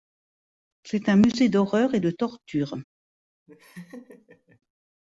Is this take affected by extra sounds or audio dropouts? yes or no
yes